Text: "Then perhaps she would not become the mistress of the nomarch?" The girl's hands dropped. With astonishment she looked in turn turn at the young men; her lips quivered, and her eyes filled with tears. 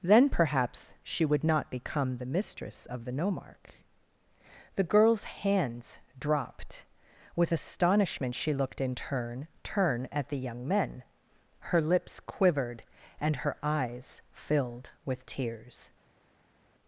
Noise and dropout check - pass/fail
pass